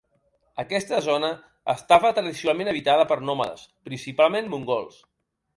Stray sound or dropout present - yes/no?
no